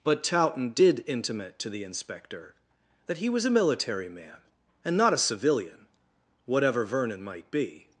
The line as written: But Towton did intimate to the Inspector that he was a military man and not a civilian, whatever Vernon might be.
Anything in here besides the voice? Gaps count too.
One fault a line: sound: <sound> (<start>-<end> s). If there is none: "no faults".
no faults